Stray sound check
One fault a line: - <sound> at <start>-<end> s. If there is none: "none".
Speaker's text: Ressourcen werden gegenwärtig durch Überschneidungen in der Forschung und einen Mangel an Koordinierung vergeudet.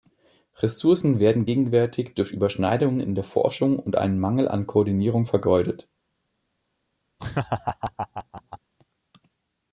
- laugh at 7.2-8.6 s